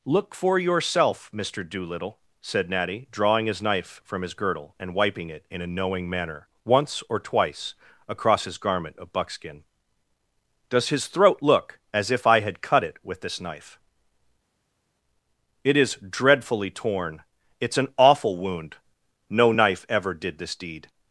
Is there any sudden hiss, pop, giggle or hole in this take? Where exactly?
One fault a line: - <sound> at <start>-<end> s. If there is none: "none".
none